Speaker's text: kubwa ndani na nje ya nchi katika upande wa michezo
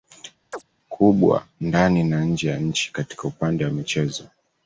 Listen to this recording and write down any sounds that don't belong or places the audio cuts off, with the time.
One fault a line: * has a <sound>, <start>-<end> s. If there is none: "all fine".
* has a chirp, 0.5-0.6 s